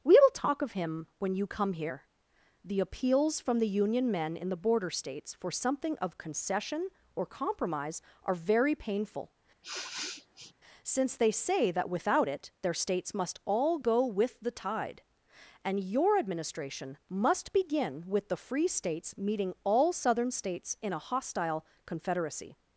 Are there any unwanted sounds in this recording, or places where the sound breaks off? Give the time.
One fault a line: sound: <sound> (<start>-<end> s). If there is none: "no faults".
sound: sniff (9.6-10.5 s)